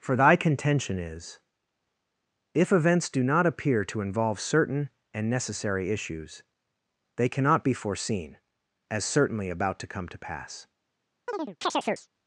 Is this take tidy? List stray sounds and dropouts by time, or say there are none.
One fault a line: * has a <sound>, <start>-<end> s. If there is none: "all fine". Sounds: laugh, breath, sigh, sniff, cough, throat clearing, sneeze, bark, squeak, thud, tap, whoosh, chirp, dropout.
* has a chirp, 11.3-12.1 s